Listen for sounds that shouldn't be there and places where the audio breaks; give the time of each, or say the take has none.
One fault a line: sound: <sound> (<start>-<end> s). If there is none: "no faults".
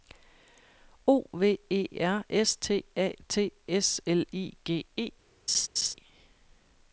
sound: laugh (5.5-5.9 s)